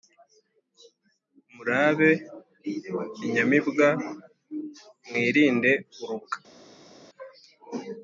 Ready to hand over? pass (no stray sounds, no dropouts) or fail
pass